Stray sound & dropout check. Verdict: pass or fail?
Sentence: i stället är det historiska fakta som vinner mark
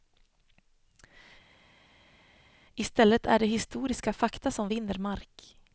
pass